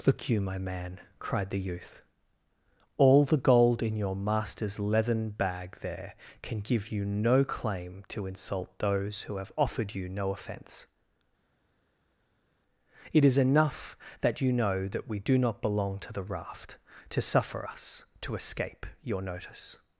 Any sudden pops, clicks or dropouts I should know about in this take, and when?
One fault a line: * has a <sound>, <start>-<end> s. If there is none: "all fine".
all fine